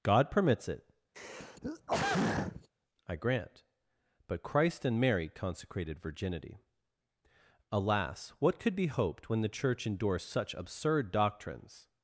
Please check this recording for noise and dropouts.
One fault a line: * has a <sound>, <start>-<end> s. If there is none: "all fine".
* has a throat clearing, 1.1-2.7 s